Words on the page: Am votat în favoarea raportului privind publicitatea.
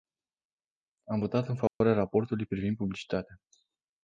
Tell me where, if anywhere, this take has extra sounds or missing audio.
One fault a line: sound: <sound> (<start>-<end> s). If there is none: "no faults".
sound: dropout (1.7-1.8 s)